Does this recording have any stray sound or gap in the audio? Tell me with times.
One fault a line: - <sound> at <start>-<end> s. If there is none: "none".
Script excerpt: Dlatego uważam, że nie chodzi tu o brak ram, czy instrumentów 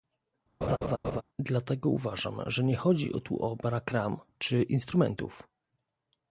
- laugh at 0.6-1.2 s